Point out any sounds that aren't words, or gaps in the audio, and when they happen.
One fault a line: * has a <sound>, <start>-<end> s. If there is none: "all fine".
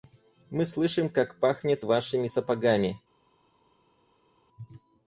all fine